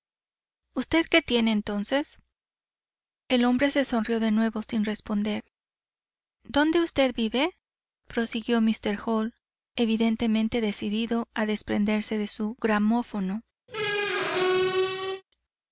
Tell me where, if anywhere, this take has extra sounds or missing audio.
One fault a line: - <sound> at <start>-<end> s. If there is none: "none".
- squeak at 13.7-15.2 s